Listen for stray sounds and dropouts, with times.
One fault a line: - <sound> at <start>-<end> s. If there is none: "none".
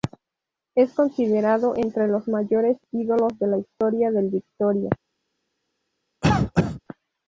- cough at 6.2-6.8 s